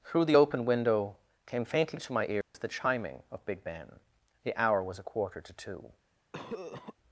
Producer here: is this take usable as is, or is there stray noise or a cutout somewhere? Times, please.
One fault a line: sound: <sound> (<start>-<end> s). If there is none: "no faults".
sound: dropout (2.4-2.5 s)
sound: cough (6.3-6.9 s)